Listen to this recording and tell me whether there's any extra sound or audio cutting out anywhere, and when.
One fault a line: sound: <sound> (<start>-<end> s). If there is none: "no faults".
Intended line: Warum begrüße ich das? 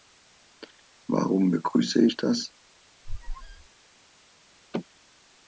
sound: squeak (3.0-3.7 s)